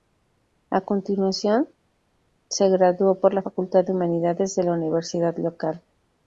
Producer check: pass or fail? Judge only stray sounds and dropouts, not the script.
pass